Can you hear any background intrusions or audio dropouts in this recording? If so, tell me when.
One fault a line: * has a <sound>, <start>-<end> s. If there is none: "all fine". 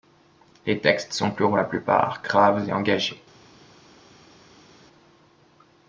all fine